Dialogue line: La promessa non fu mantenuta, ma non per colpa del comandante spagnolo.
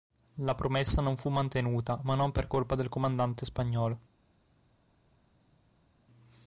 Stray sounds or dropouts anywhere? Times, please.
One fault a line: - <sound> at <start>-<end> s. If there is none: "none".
none